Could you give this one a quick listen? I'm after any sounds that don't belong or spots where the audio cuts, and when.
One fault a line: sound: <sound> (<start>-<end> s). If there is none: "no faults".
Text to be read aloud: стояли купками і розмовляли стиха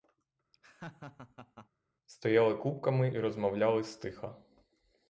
sound: laugh (0.5-1.7 s)